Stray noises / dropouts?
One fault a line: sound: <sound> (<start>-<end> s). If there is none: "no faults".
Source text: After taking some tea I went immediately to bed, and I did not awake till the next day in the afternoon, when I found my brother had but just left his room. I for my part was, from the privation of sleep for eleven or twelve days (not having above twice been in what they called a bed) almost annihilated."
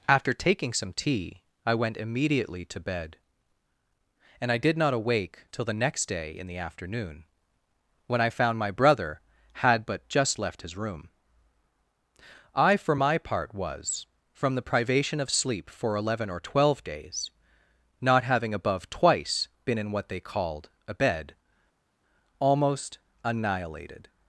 no faults